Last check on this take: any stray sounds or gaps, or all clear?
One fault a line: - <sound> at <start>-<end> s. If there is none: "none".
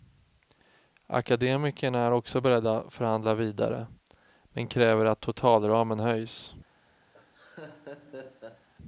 - laugh at 7.1-8.7 s